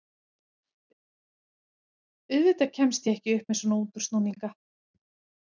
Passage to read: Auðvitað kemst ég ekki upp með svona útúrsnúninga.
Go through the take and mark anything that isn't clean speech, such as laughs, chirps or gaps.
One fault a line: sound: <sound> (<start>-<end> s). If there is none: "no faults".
no faults